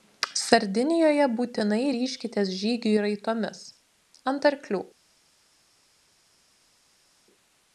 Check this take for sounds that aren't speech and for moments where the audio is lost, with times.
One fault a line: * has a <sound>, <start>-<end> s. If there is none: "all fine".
all fine